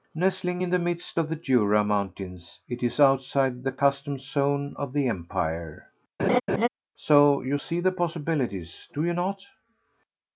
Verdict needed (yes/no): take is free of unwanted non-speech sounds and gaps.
no